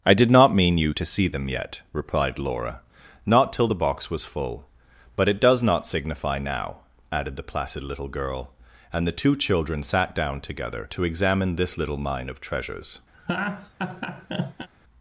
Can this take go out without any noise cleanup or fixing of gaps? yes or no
no